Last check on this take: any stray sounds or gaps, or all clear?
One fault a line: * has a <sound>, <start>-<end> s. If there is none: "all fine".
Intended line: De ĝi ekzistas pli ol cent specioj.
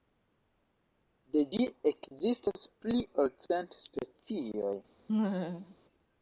* has a laugh, 5.1-5.8 s